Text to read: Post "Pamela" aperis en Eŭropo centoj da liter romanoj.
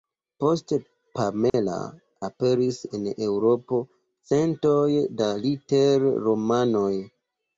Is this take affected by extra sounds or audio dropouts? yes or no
yes